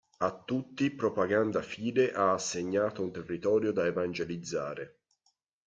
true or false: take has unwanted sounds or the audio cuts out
false